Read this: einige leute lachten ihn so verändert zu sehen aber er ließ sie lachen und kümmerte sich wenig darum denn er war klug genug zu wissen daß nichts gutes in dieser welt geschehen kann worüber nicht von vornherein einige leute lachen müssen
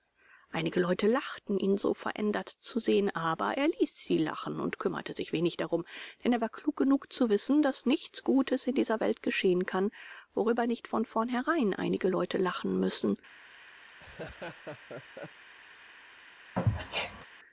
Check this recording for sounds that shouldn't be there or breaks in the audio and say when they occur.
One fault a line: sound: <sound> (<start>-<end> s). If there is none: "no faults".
sound: laugh (13.9-15.4 s)
sound: sneeze (16.6-17.3 s)